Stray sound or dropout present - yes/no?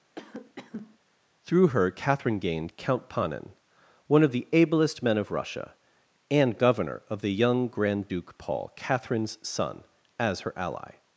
yes